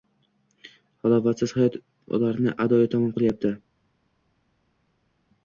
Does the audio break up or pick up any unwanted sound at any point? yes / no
no